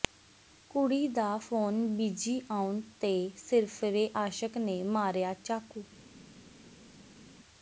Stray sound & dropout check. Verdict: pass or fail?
pass